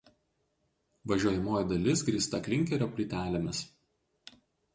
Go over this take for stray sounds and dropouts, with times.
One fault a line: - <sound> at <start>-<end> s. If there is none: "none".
none